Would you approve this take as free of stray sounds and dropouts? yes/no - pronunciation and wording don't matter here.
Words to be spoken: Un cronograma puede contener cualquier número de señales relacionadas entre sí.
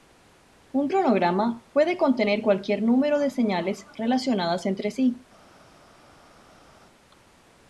yes